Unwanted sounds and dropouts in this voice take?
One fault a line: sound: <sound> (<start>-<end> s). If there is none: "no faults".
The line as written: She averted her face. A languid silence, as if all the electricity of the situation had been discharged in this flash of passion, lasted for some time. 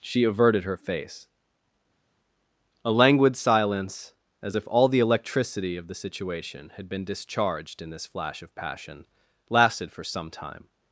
no faults